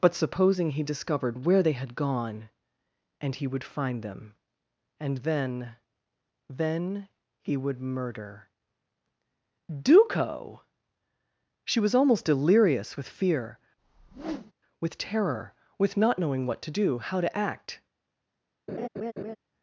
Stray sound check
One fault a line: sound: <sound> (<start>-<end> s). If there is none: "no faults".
sound: whoosh (13.8-14.5 s)
sound: laugh (18.7-19.4 s)